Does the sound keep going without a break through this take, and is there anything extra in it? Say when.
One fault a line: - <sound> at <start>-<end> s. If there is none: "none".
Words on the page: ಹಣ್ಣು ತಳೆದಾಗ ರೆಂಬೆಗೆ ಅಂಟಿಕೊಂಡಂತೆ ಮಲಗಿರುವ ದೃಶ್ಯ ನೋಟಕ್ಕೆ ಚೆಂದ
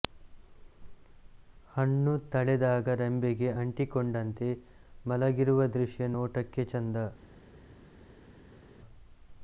none